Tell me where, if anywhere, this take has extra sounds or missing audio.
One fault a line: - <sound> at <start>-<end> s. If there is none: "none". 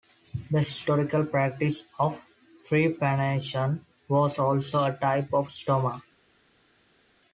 none